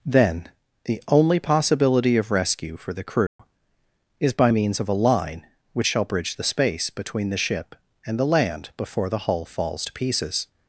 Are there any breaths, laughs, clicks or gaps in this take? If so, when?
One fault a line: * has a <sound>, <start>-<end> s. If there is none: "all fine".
* has a dropout, 3.3-3.4 s